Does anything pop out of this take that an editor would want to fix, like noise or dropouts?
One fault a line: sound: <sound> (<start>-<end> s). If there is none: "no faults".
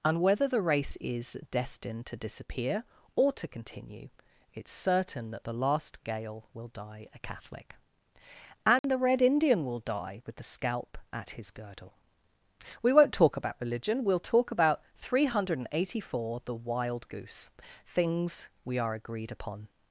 sound: dropout (8.8-8.8 s)